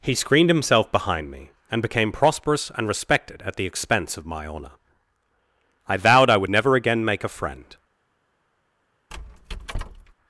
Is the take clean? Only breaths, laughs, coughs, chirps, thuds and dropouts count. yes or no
no